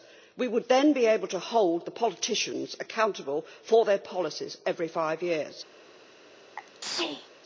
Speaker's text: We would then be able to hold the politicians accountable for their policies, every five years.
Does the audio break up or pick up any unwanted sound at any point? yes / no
yes